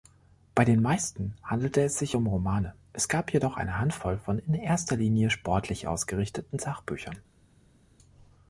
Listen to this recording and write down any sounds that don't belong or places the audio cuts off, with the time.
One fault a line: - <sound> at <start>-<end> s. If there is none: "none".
none